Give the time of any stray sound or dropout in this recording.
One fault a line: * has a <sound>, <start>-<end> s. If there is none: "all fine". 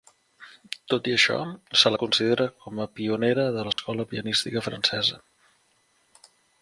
* has a dropout, 3.7-3.8 s